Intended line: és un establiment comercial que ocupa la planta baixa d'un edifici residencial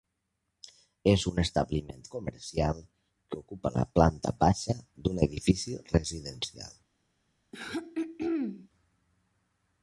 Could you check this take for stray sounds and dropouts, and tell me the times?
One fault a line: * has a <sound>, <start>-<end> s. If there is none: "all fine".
* has a throat clearing, 7.5-8.7 s